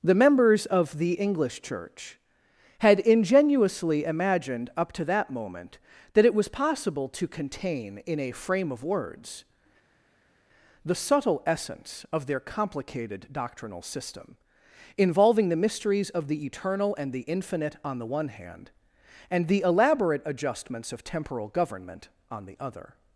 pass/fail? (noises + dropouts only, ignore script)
pass